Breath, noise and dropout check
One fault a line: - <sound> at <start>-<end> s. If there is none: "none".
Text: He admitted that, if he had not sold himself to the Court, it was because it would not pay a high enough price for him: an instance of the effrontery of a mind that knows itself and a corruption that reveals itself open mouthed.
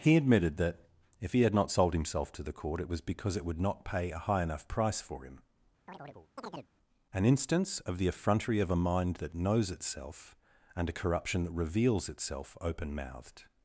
- chirp at 5.9-6.7 s